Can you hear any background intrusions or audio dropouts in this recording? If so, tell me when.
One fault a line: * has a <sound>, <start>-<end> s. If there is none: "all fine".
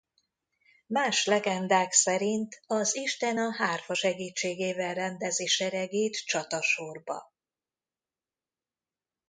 all fine